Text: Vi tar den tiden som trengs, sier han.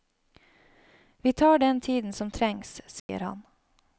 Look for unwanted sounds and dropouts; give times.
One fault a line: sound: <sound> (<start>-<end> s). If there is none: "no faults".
sound: dropout (3.0-3.1 s)